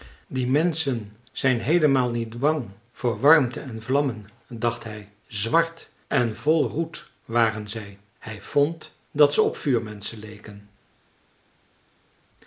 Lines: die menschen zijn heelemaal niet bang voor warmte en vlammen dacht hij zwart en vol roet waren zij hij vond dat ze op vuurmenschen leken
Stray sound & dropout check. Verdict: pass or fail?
pass